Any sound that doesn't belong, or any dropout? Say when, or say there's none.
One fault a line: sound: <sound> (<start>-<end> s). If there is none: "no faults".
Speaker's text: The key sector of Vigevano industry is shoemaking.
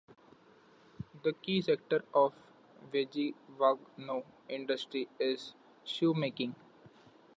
no faults